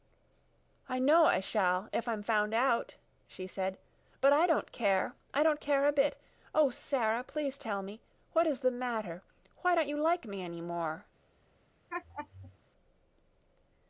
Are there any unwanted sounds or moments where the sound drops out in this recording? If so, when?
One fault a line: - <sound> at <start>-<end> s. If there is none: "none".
- laugh at 11.9-12.6 s